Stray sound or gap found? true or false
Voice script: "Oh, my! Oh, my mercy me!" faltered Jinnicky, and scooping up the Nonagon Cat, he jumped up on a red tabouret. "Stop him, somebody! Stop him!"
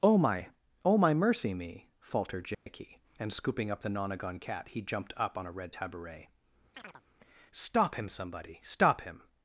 true